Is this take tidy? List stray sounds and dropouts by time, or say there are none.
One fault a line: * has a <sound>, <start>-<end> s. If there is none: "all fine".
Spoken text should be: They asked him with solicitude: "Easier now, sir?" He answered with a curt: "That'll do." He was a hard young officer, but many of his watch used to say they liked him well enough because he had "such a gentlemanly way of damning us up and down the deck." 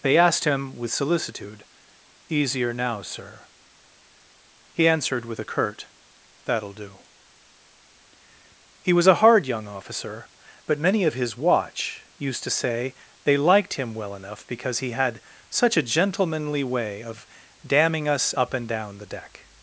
all fine